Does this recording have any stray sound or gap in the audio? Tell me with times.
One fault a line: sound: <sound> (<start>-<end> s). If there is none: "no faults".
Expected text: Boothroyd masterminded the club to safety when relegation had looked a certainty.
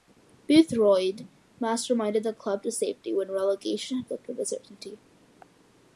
no faults